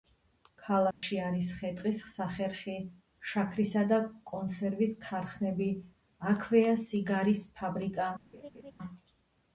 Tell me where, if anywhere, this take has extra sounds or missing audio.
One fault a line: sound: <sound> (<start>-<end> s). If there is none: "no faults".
sound: dropout (0.9-1.0 s)
sound: laugh (8.3-8.7 s)